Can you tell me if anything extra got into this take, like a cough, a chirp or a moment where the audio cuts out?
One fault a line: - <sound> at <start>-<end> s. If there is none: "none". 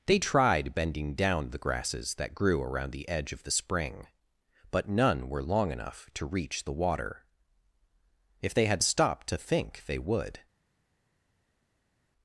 none